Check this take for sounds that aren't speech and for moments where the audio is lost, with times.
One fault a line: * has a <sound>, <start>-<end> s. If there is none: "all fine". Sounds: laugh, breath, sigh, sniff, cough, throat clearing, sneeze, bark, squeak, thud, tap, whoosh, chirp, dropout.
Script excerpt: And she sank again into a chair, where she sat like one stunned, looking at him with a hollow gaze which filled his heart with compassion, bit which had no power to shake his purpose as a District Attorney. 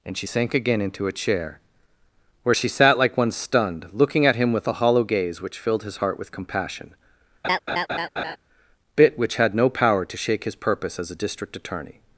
* has a laugh, 7.4-8.4 s